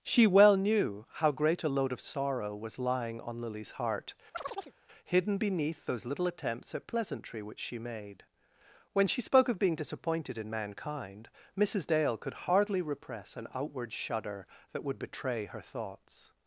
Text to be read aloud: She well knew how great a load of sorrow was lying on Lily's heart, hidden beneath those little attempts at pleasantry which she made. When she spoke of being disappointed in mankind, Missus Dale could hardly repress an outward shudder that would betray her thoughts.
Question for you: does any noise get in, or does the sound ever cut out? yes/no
yes